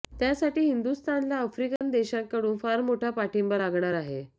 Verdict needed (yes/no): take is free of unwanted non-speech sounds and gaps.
no